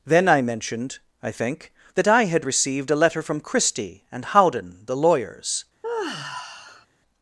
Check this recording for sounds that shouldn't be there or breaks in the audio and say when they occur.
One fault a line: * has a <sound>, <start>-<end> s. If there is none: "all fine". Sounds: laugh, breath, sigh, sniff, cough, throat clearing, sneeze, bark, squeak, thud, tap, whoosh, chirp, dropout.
* has a sigh, 5.8-6.9 s